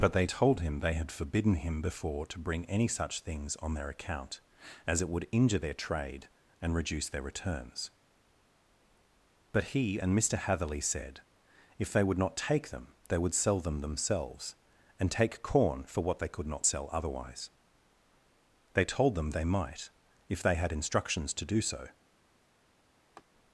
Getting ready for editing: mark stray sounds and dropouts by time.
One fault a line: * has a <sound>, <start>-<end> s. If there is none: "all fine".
* has a laugh, 23.2-23.2 s